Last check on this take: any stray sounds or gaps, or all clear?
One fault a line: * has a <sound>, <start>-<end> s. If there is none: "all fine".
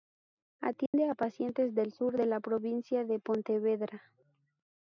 * has a dropout, 0.9-0.9 s